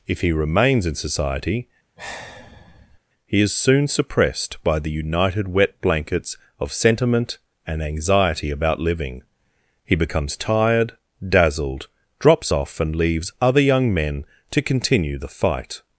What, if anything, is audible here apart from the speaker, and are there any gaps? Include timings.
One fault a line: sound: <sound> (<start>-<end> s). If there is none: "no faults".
sound: sigh (2.0-3.0 s)